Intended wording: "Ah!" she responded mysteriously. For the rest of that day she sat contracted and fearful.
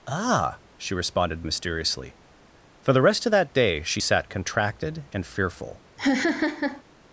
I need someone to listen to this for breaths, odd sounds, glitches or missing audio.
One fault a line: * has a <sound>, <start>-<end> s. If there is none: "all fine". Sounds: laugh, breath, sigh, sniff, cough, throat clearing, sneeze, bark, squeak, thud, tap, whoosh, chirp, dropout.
* has a laugh, 6.0-6.8 s